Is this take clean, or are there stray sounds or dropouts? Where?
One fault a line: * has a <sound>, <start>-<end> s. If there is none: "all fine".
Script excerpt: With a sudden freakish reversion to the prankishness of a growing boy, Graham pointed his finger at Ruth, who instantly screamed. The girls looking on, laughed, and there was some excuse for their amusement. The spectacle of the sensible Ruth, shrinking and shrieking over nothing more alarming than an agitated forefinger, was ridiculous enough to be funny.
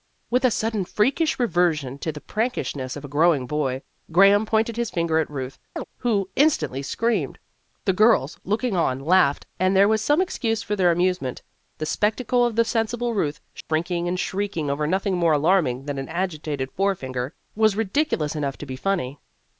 * has a chirp, 5.8-5.8 s
* has a dropout, 13.6-13.7 s